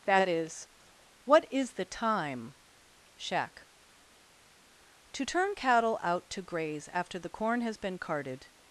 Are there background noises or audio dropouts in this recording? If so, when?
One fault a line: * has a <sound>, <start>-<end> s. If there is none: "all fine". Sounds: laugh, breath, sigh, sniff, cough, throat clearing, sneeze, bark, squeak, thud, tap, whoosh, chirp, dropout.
all fine